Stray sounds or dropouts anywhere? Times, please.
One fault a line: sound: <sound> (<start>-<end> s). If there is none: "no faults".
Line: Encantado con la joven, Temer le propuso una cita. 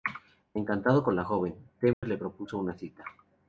sound: dropout (1.9-2.0 s)